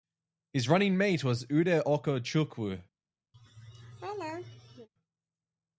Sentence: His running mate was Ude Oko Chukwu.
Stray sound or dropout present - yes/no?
yes